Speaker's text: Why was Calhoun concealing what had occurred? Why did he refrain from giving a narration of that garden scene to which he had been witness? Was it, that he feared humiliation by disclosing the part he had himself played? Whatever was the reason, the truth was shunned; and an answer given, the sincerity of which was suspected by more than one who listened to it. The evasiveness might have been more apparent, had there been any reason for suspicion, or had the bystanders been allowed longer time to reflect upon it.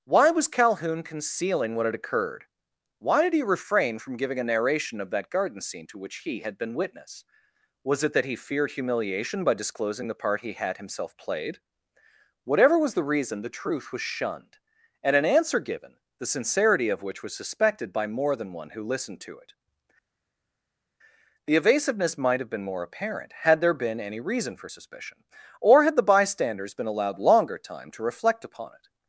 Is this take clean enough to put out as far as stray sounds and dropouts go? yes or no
yes